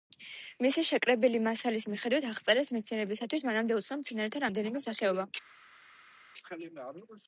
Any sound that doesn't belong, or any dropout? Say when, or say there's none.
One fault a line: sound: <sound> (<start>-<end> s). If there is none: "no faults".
no faults